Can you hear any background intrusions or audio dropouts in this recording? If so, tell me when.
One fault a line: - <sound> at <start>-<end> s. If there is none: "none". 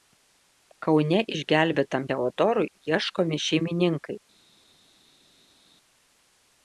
none